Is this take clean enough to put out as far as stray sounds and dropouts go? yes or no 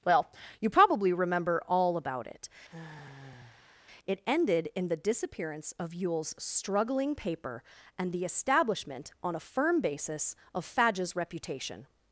no